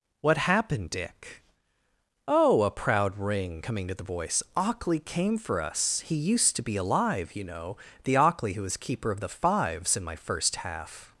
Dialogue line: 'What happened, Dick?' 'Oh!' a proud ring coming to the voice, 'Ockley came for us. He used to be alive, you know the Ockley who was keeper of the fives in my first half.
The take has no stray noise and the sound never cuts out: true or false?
true